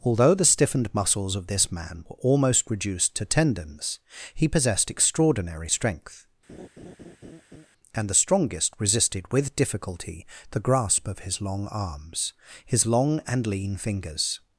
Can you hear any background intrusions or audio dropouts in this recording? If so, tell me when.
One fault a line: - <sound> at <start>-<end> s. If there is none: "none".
- laugh at 6.5-7.7 s